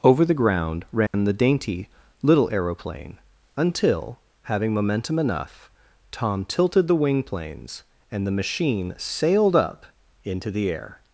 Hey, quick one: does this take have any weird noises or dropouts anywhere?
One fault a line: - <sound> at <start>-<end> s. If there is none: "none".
- dropout at 1.1-1.1 s